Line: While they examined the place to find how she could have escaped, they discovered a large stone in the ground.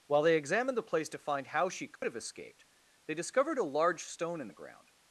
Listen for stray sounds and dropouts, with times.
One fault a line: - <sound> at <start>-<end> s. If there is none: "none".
- dropout at 2.0-2.0 s